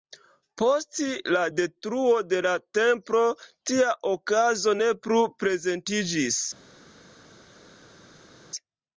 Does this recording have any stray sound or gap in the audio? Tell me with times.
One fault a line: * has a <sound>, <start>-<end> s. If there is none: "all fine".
all fine